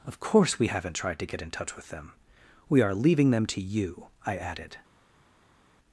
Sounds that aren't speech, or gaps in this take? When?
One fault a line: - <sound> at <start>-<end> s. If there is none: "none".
none